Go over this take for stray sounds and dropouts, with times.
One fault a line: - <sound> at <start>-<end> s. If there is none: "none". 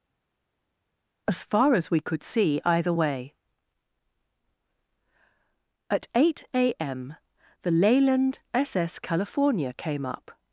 none